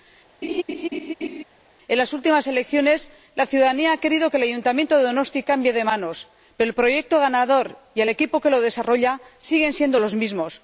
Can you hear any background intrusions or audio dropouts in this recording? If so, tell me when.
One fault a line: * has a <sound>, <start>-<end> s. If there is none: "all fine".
* has a laugh, 0.4-1.4 s